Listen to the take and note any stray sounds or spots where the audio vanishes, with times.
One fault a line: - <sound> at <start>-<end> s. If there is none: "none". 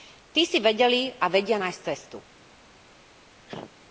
- cough at 3.5-3.7 s